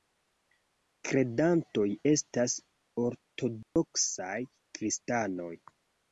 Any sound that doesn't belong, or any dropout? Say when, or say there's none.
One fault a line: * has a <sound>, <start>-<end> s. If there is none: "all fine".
* has a dropout, 3.6-3.8 s